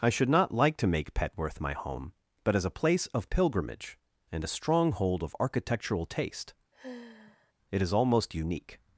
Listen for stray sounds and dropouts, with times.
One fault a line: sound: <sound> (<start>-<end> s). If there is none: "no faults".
sound: sigh (6.7-7.5 s)